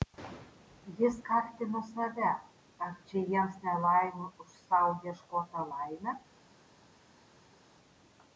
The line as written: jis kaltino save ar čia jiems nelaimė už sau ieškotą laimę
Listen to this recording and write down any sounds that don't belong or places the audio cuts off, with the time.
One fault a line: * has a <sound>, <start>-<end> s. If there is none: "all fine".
all fine